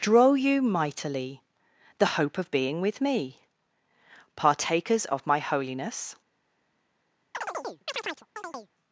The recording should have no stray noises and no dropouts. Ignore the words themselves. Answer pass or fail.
fail